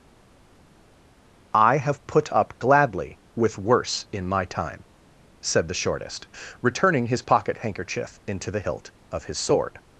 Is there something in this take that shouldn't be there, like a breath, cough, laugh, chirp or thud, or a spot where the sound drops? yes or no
no